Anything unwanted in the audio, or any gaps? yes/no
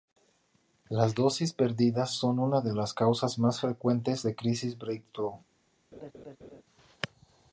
yes